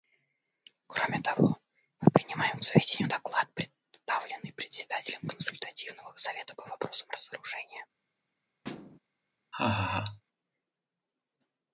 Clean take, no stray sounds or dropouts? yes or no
no